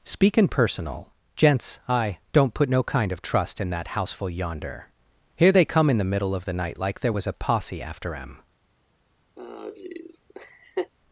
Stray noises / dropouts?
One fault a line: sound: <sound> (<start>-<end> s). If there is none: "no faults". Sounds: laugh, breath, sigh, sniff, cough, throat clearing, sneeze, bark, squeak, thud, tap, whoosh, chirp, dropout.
sound: laugh (9.4-10.9 s)